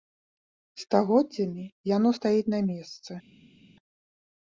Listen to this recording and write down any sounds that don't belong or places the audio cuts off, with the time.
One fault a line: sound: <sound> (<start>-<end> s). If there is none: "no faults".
no faults